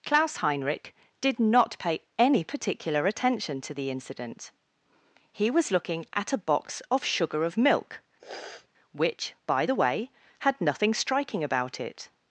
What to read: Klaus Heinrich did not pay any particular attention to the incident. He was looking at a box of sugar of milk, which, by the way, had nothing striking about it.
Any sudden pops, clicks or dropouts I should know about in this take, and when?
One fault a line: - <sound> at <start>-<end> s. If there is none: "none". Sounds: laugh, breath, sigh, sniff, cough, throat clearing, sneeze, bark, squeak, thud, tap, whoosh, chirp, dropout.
- sniff at 8.2-8.7 s